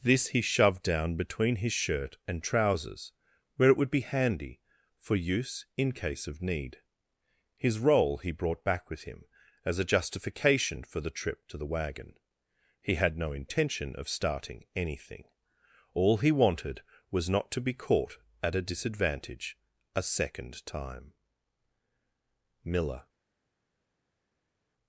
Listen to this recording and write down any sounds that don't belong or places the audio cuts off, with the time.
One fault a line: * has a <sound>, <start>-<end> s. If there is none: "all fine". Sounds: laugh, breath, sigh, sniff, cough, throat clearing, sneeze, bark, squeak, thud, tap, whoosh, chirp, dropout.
all fine